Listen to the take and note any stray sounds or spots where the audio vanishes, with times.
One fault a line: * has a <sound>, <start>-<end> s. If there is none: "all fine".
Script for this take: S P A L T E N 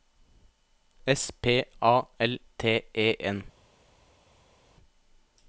all fine